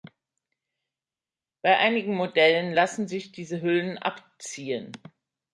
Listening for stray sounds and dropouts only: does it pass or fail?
pass